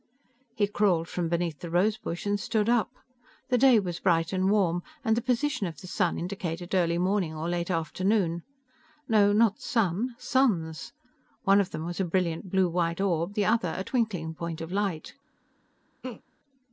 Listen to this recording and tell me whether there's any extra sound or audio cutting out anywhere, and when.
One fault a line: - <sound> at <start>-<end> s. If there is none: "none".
- laugh at 16.0-16.2 s